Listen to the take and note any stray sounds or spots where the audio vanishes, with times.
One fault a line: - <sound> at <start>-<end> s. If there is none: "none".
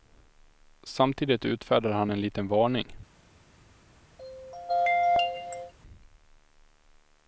- throat clearing at 4.2-5.7 s